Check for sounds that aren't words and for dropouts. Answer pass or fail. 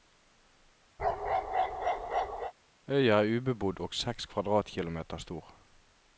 fail